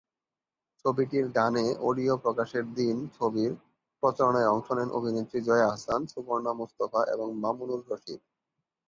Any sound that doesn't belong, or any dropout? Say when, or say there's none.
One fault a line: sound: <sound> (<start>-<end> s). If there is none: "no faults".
no faults